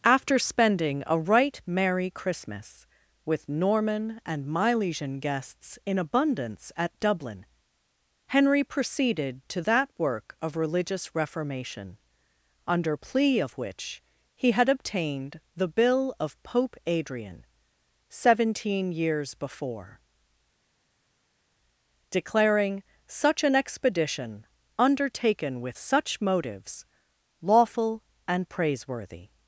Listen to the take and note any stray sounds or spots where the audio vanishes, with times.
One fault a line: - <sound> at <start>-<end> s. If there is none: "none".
none